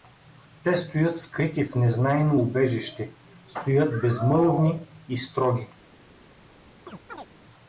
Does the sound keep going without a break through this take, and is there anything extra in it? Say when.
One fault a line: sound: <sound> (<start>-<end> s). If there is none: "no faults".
sound: chirp (6.9-7.3 s)